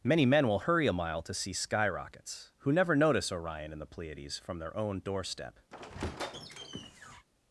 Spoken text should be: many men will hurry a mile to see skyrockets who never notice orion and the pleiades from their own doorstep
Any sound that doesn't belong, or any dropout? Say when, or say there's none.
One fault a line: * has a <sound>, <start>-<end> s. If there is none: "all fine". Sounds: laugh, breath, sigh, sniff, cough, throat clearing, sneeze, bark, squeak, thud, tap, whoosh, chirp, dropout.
* has a squeak, 5.7-7.3 s